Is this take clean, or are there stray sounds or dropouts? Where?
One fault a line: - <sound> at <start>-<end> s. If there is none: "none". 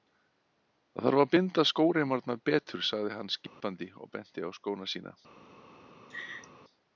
- dropout at 3.5-3.6 s
- laugh at 6.1-6.5 s